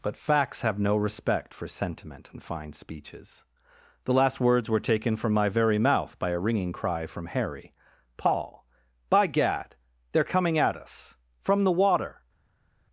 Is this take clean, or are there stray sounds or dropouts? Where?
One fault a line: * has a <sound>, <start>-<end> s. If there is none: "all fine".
all fine